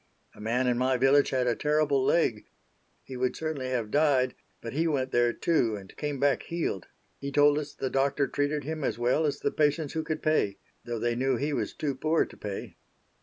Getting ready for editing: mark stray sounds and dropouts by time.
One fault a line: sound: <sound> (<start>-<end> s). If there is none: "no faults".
no faults